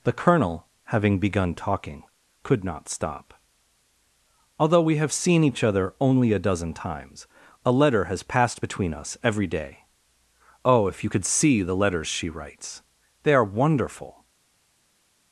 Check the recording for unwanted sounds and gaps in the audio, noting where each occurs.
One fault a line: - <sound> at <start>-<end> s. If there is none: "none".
none